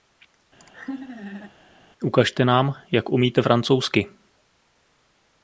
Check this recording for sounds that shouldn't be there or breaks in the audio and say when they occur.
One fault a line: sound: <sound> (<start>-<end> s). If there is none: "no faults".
sound: laugh (0.6-1.5 s)